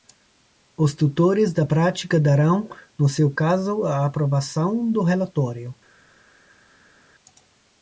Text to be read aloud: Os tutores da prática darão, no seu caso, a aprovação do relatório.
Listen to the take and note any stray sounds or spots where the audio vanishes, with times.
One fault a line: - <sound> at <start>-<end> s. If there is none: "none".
none